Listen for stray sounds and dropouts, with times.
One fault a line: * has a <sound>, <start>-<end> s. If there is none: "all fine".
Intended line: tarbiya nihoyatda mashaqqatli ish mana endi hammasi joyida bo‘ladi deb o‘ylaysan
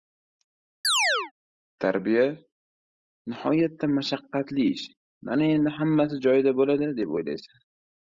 * has a chirp, 0.8-1.3 s